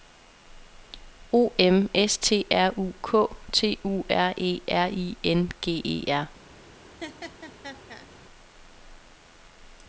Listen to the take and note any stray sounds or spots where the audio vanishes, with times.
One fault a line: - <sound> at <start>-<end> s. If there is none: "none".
- laugh at 7.0-8.1 s